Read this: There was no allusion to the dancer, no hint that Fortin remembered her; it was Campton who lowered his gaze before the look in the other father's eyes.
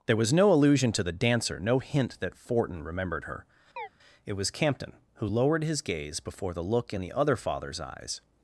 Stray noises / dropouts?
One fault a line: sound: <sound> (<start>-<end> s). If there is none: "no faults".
sound: chirp (3.8-3.9 s)